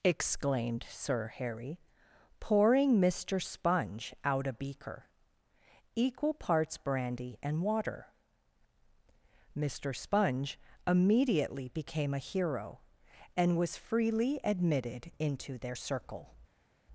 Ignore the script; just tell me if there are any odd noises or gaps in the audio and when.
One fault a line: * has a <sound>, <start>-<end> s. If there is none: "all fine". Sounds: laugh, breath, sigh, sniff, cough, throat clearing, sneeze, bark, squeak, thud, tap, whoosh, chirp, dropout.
all fine